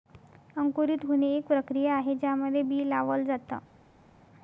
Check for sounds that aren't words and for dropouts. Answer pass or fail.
pass